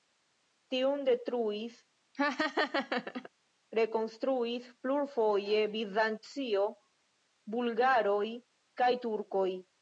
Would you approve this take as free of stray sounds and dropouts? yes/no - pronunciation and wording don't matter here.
no